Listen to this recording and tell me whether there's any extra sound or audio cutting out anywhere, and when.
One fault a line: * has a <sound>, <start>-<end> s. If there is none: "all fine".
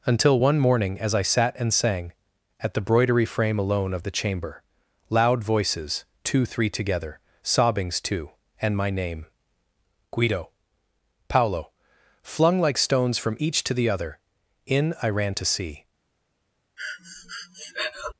* has a breath, 16.8-18.1 s